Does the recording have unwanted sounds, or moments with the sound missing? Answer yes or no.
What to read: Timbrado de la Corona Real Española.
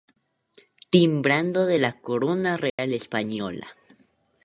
yes